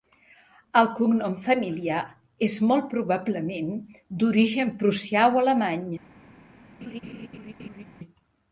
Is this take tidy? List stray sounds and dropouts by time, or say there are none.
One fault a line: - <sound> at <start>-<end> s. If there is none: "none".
- laugh at 6.8-7.8 s